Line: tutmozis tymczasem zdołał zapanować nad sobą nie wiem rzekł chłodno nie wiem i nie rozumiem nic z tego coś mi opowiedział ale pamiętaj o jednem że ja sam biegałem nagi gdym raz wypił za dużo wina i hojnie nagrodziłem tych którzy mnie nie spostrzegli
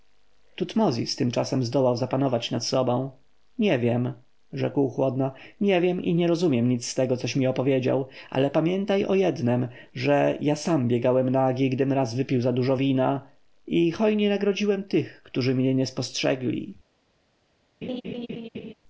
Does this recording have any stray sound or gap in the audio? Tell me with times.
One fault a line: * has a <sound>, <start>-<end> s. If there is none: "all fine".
* has a laugh, 17.8-18.7 s